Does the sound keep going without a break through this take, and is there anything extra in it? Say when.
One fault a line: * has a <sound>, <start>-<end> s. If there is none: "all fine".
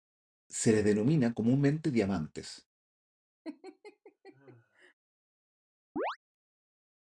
* has a laugh, 3.4-4.9 s
* has a chirp, 6.0-6.2 s